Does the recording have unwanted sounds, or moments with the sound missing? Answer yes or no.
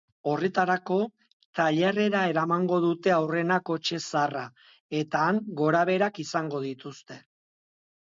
no